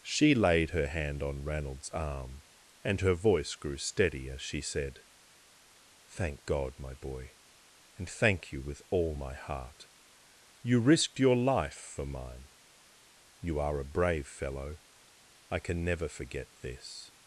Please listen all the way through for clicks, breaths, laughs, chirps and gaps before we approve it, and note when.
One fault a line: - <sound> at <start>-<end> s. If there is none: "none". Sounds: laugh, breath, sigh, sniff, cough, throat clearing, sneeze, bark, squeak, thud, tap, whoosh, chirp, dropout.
none